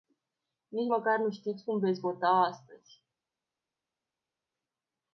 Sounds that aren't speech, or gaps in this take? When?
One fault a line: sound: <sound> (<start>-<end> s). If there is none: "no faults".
no faults